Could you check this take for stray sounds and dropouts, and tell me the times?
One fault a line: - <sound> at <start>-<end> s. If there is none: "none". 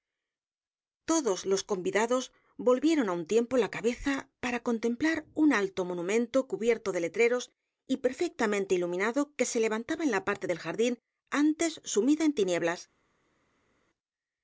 none